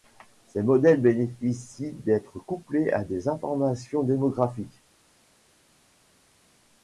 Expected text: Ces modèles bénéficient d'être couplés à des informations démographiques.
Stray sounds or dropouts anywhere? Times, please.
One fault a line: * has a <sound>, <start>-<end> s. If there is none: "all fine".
all fine